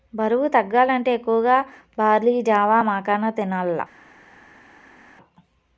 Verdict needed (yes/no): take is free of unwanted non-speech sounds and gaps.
yes